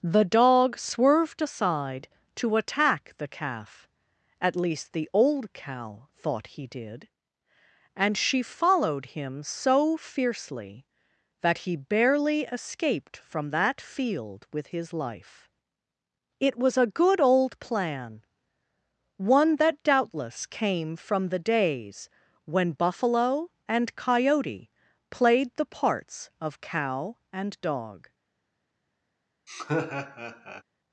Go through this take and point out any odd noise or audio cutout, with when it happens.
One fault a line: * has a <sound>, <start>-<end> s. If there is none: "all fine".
* has a laugh, 29.5-30.6 s